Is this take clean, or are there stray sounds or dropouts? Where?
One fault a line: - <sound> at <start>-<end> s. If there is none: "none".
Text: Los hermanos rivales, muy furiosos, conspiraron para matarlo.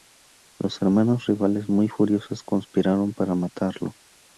none